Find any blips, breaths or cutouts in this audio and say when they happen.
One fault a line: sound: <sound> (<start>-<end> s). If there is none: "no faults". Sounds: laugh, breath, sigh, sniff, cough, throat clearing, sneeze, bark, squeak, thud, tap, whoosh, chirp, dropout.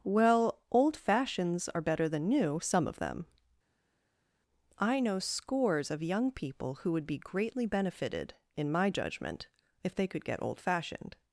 no faults